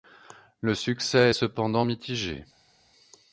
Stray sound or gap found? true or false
false